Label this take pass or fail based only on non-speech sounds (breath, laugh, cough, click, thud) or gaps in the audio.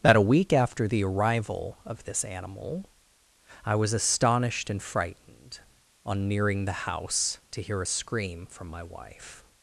pass